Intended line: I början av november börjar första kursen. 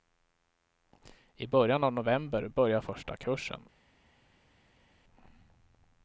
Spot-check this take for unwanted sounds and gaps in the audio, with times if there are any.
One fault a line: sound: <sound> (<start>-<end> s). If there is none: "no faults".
no faults